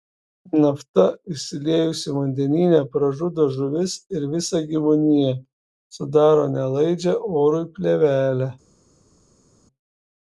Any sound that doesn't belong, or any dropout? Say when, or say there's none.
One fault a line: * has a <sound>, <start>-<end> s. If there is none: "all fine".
all fine